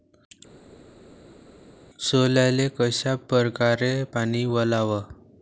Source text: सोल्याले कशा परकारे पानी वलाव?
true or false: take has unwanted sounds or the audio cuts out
false